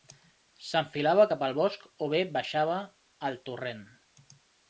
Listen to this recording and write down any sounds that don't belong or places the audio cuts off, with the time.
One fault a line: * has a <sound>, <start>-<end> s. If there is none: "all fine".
all fine